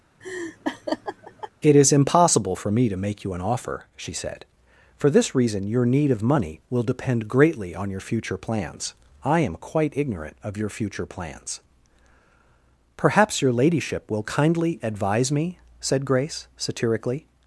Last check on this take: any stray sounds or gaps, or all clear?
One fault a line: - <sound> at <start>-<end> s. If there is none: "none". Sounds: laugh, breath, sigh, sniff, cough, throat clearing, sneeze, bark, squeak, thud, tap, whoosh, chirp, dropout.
- laugh at 0.2-1.5 s